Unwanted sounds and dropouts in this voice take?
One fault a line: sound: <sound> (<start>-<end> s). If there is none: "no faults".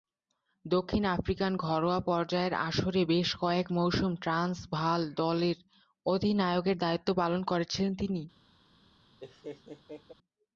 sound: laugh (9.2-10.1 s)